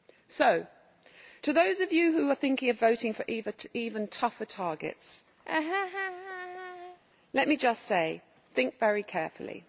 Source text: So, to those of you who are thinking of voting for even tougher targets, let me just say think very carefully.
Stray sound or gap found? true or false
true